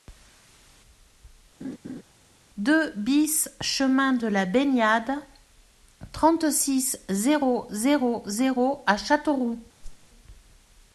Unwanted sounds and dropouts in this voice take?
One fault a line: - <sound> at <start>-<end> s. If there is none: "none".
- laugh at 1.6-2.0 s
- whoosh at 9.8-10.1 s